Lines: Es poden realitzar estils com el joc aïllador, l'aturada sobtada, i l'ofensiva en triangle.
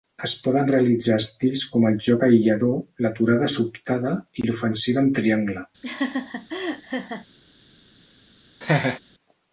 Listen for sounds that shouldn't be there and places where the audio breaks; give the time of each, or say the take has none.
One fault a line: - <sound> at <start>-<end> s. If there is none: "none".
- laugh at 5.8-7.3 s
- laugh at 8.6-9.0 s